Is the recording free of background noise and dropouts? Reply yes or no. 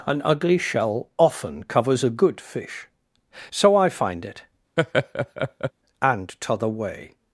no